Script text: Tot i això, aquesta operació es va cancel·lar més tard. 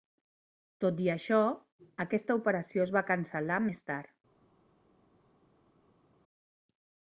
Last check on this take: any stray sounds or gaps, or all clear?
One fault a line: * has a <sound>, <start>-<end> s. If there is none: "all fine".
all fine